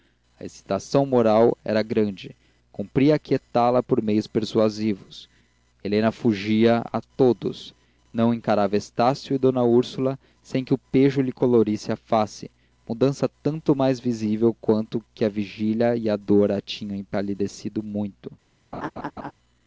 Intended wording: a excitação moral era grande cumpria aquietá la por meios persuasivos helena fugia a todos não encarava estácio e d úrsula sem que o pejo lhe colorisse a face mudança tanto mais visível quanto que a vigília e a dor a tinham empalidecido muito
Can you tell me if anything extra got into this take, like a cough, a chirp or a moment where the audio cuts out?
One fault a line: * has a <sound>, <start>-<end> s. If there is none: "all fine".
* has a laugh, 18.7-19.3 s